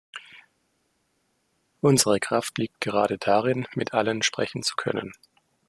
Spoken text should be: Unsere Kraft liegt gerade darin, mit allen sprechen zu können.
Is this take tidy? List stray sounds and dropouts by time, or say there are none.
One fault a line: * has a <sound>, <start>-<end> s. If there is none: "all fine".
all fine